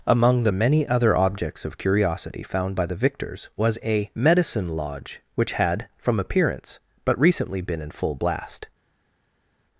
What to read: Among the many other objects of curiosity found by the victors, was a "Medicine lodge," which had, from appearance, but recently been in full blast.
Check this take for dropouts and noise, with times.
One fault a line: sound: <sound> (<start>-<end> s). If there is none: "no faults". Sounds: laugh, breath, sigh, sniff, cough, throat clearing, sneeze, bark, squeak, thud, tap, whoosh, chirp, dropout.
no faults